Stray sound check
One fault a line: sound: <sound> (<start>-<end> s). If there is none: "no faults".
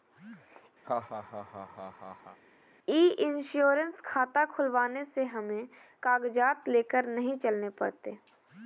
sound: laugh (0.8-2.4 s)